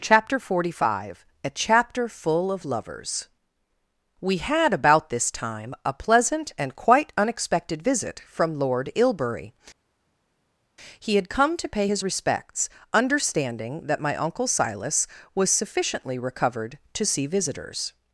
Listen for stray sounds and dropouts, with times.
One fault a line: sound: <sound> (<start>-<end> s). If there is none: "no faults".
no faults